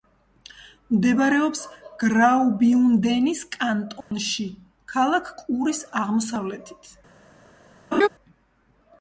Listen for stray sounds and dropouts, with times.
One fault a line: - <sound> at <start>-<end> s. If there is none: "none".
- dropout at 4.0-4.1 s
- laugh at 7.9-8.1 s